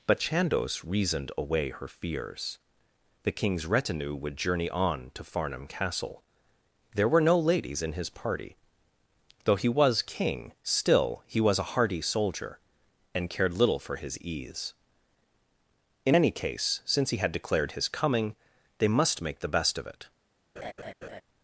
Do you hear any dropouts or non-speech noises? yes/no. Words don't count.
yes